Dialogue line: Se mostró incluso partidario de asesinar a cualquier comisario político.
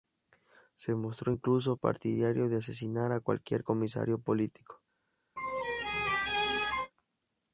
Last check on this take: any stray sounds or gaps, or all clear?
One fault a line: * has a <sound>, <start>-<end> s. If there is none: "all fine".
* has a laugh, 5.4-6.9 s